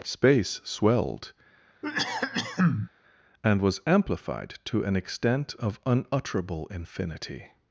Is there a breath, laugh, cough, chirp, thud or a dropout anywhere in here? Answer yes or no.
yes